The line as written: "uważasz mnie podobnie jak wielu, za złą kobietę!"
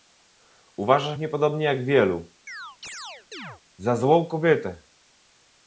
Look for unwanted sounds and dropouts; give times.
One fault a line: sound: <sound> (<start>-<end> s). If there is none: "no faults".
sound: chirp (2.5-3.6 s)